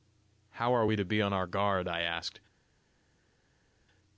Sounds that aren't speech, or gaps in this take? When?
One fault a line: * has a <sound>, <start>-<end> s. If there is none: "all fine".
all fine